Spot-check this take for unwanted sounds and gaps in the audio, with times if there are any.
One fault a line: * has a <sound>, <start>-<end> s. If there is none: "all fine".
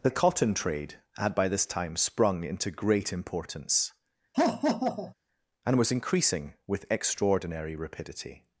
* has a laugh, 4.3-5.1 s